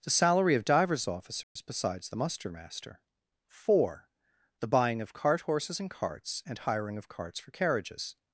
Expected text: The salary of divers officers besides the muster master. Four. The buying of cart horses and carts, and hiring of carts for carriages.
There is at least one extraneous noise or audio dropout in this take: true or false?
true